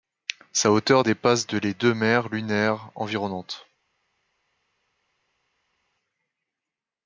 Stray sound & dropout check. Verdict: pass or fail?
pass